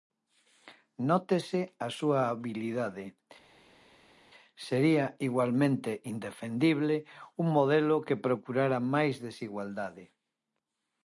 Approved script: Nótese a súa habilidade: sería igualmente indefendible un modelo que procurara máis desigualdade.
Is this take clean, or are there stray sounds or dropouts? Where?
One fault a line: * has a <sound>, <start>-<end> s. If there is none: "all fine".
all fine